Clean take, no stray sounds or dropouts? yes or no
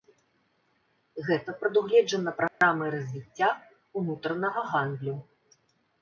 no